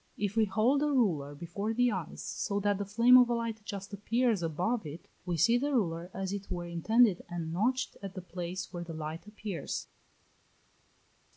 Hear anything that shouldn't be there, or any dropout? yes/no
no